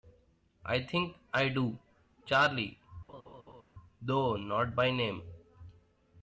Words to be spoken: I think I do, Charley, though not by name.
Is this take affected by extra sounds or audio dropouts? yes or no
yes